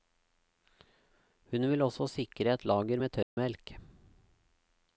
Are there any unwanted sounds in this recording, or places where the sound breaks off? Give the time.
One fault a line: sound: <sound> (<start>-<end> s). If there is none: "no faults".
sound: dropout (3.2-3.4 s)